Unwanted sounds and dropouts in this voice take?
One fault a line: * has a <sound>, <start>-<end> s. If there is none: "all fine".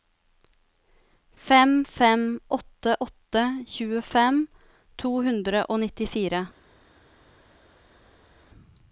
all fine